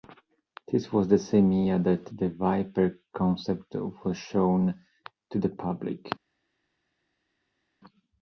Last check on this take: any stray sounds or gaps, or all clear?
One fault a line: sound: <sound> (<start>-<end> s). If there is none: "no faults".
no faults